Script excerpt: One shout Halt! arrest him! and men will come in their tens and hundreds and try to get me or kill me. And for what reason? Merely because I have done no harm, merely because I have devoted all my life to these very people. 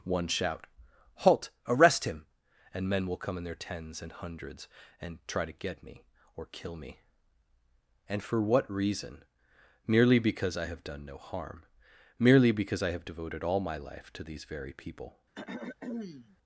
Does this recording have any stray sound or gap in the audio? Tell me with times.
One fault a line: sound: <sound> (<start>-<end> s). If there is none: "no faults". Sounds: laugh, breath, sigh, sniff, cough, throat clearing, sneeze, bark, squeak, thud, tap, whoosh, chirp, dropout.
sound: throat clearing (15.3-16.4 s)